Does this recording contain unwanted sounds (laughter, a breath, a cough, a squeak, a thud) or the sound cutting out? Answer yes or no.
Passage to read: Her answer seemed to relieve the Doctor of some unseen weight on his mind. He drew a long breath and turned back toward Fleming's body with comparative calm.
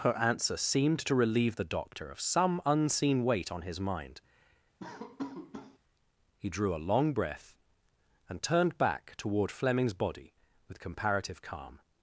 yes